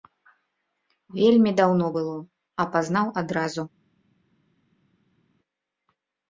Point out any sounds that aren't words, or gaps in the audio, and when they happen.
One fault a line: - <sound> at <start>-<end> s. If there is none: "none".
none